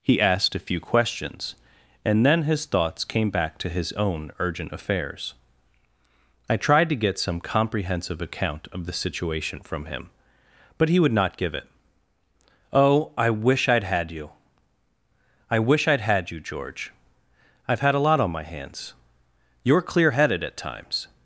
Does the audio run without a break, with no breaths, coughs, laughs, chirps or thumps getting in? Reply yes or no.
yes